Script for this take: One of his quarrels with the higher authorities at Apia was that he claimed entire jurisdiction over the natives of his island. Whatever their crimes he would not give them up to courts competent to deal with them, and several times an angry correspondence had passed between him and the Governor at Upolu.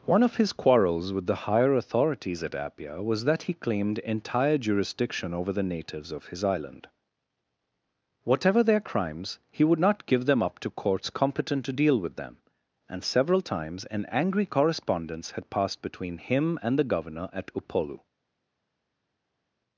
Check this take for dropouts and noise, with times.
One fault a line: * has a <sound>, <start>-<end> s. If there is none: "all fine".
all fine